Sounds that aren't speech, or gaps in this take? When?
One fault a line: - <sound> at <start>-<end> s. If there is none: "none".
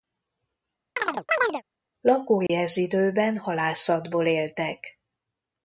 - chirp at 1.0-1.6 s
- dropout at 2.5-2.5 s